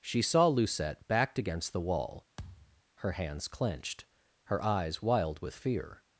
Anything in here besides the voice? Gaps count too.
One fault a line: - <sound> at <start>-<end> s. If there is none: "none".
- thud at 2.4-2.8 s